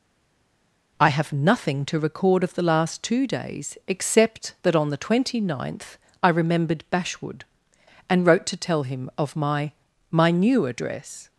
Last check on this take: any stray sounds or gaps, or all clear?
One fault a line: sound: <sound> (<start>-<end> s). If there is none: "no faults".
no faults